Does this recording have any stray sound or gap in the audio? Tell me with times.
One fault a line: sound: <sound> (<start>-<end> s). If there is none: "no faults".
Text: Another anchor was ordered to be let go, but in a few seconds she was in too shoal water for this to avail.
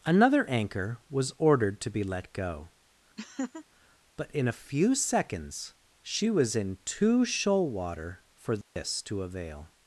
sound: laugh (3.2-3.7 s)
sound: dropout (8.6-8.8 s)